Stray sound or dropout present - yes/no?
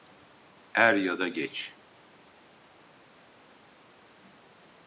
no